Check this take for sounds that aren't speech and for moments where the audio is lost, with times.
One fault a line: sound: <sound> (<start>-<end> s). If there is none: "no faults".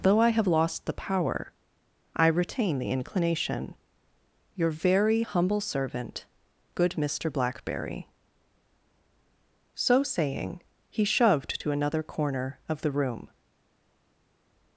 no faults